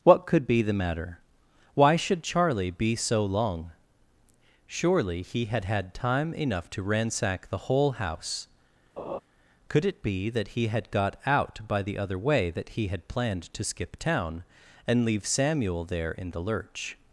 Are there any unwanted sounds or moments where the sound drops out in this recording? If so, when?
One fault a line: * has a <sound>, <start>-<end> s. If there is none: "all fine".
* has a laugh, 9.0-9.2 s